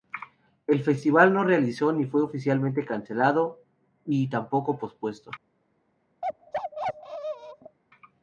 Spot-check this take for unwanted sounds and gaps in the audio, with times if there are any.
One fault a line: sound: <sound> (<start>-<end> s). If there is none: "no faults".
sound: bark (6.2-7.8 s)